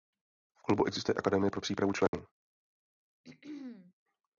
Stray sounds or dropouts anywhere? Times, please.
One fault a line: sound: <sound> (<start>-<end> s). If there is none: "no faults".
sound: dropout (2.1-2.1 s)
sound: throat clearing (3.2-3.9 s)